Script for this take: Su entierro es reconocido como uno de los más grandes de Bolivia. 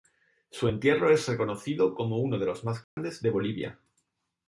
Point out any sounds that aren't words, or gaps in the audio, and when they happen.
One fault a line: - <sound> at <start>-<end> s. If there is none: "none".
- dropout at 2.8-3.0 s